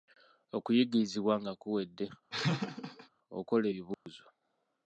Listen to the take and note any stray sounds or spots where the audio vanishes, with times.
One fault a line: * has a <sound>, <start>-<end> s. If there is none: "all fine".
* has a laugh, 2.3-3.1 s
* has a dropout, 3.9-4.1 s